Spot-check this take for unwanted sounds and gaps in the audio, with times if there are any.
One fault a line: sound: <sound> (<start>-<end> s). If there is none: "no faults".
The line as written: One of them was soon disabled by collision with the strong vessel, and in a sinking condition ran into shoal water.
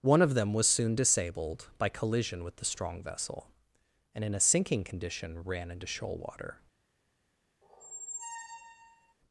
sound: squeak (7.6-9.1 s)